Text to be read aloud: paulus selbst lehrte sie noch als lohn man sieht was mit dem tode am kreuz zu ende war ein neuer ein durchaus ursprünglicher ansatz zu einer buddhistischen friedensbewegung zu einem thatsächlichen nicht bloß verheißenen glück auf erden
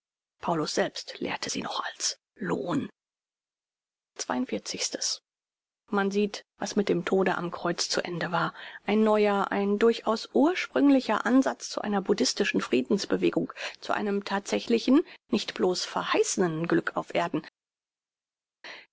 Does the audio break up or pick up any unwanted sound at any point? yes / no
no